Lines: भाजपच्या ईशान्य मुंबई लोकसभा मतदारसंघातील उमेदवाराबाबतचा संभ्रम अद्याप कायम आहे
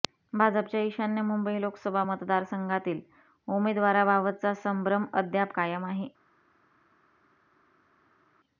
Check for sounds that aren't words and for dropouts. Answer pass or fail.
pass